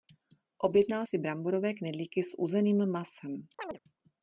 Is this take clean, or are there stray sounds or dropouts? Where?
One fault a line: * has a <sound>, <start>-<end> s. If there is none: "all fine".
* has a chirp, 3.6-3.8 s